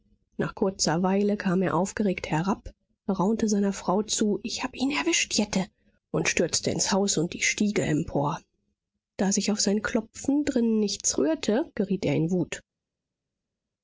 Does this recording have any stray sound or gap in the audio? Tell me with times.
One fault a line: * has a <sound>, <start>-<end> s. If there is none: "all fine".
all fine